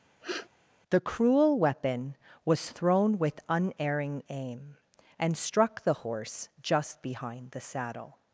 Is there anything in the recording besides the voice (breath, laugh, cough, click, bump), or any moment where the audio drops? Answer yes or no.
yes